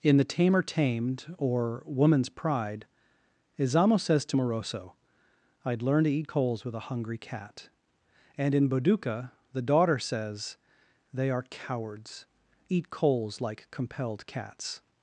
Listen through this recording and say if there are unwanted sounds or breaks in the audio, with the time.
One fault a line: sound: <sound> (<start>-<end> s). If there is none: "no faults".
no faults